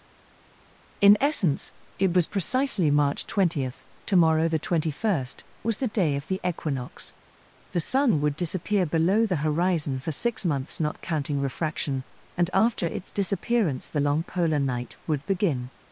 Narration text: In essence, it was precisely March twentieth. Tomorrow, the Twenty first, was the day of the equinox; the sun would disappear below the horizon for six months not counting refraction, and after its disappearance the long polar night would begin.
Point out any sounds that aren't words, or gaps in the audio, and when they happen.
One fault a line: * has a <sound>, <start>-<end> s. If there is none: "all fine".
all fine